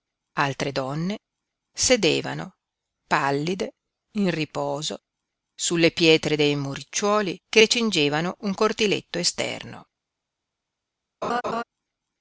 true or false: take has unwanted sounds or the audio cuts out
true